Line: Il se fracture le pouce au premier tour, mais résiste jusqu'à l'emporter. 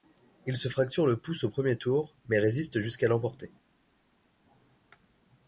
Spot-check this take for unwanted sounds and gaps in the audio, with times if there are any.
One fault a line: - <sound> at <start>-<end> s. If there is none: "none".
none